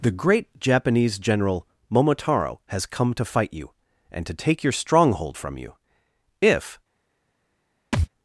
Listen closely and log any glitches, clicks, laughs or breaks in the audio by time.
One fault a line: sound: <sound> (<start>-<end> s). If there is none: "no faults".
sound: thud (7.9-8.1 s)